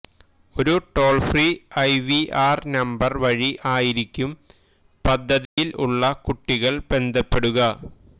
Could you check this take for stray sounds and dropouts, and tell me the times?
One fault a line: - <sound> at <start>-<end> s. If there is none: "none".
- dropout at 5.4-5.6 s